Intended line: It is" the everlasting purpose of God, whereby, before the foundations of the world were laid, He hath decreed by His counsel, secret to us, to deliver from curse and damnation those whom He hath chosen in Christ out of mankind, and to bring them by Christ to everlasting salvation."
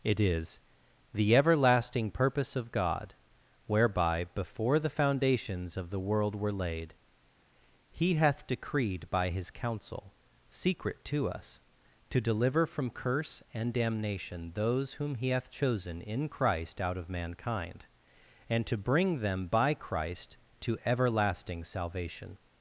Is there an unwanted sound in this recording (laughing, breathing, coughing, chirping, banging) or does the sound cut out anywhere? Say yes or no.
no